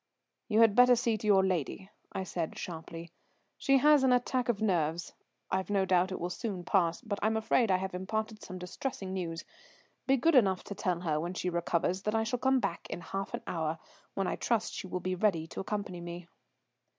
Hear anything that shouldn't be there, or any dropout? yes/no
no